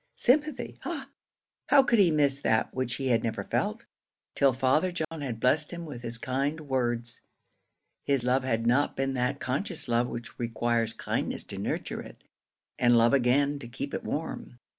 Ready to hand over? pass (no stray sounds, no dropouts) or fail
fail